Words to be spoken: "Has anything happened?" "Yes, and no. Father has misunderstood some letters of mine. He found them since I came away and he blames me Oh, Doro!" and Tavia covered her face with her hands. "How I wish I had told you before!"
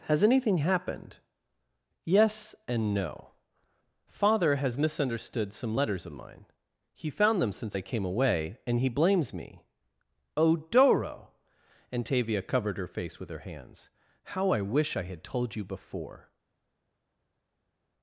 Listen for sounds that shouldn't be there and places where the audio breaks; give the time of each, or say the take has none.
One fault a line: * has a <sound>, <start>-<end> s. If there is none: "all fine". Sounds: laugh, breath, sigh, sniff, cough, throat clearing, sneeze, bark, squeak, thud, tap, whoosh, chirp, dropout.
all fine